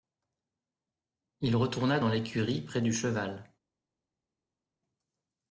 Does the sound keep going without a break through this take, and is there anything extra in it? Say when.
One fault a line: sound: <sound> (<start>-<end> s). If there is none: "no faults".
no faults